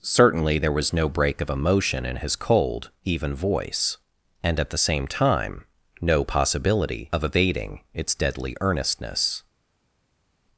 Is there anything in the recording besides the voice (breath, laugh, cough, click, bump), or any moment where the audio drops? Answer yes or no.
no